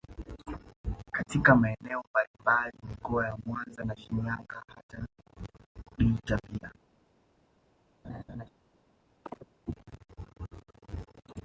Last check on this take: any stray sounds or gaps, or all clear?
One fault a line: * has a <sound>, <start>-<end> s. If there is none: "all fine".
* has a laugh, 8.0-8.5 s
* has a chirp, 9.2-9.5 s